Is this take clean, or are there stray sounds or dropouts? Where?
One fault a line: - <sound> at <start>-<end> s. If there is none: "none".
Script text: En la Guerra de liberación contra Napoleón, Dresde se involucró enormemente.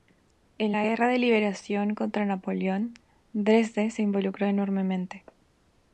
none